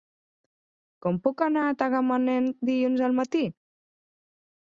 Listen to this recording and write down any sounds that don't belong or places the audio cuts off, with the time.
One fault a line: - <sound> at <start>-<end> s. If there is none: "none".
none